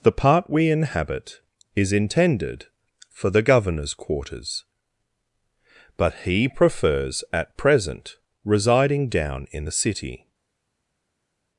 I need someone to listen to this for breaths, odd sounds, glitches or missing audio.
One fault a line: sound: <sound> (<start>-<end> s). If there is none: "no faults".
no faults